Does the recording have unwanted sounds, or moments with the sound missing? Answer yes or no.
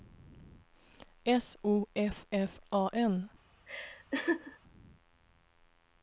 yes